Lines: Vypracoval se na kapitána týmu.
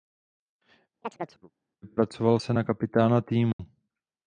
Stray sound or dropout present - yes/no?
yes